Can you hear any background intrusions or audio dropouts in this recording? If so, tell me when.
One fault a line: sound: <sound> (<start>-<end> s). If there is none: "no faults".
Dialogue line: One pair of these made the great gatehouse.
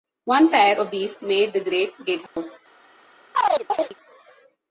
sound: dropout (2.3-2.4 s)
sound: chirp (3.3-3.9 s)